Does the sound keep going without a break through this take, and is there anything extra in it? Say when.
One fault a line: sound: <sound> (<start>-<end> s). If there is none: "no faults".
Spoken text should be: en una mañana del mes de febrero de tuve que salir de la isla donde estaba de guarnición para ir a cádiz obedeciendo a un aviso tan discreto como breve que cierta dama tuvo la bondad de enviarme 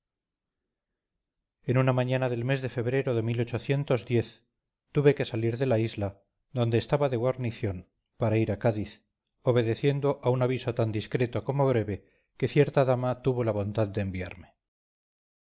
no faults